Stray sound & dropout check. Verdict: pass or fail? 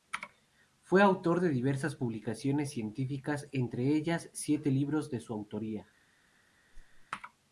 fail